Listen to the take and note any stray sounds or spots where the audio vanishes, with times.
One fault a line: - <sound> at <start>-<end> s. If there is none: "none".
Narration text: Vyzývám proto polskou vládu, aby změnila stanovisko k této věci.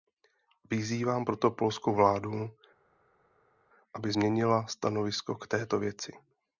none